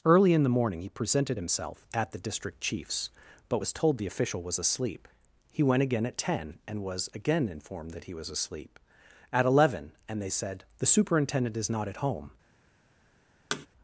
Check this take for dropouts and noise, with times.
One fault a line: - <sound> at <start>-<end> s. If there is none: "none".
- thud at 13.5-13.7 s